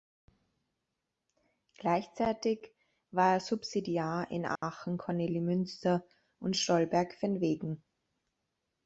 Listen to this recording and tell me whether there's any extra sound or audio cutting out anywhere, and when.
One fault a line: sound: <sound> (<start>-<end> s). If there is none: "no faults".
sound: dropout (4.6-4.6 s)